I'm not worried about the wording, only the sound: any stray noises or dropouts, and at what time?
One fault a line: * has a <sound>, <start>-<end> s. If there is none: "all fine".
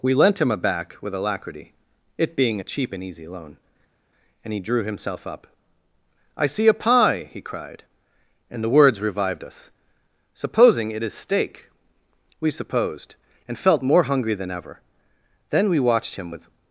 all fine